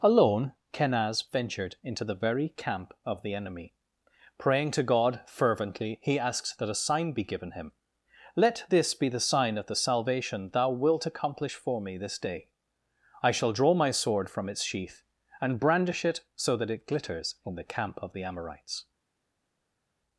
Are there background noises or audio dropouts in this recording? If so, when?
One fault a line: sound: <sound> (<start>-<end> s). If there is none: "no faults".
no faults